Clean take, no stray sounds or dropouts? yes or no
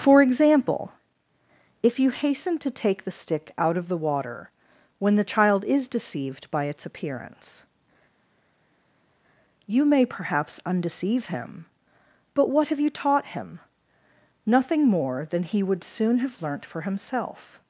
yes